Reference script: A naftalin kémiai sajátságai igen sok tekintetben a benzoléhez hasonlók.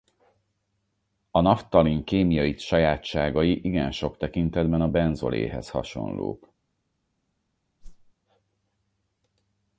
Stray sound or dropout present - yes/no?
yes